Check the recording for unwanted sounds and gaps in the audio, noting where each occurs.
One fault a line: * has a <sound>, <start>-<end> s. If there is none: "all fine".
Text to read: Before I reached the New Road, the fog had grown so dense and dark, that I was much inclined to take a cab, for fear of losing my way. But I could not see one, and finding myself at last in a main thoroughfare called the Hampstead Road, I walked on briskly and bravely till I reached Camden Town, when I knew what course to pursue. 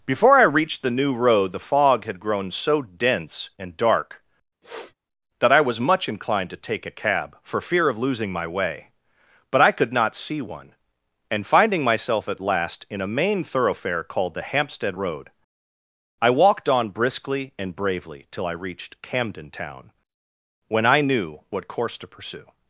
* has a sniff, 4.6-4.9 s